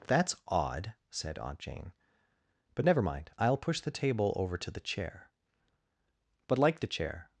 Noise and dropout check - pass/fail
pass